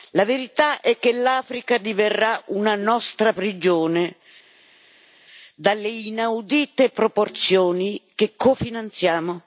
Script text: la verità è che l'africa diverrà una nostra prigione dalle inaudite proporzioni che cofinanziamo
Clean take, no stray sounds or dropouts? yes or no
yes